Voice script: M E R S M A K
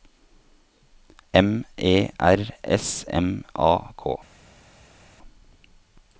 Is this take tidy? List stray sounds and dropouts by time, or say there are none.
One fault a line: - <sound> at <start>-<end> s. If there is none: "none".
none